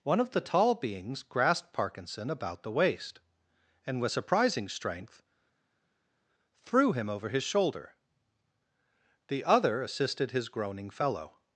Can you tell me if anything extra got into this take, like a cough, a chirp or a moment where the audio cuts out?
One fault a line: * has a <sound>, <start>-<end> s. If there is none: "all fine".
all fine